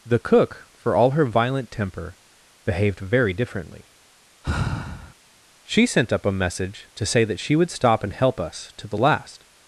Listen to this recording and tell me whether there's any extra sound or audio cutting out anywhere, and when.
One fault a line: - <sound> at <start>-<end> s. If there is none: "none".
- sigh at 4.4-5.1 s